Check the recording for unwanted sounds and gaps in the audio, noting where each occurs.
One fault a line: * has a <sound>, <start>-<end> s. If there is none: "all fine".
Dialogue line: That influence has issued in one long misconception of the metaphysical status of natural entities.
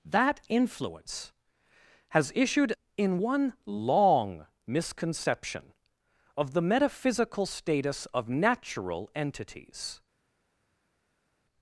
all fine